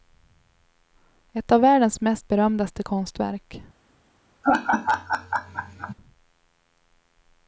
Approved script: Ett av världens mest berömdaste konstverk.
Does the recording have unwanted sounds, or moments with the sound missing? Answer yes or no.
yes